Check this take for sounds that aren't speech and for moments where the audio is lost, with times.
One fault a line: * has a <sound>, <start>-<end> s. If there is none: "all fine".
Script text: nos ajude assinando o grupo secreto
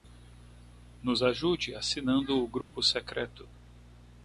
* has a dropout, 2.6-2.7 s